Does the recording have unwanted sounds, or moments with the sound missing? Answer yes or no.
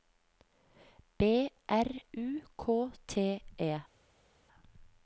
no